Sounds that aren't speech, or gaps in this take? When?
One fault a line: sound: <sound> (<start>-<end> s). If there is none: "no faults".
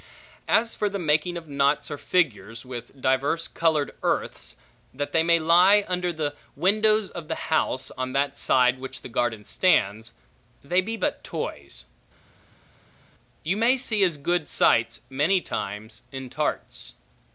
no faults